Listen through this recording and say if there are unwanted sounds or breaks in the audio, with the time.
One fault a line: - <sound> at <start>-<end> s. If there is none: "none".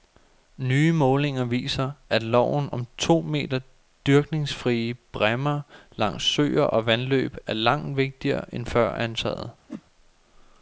- whoosh at 9.7-9.8 s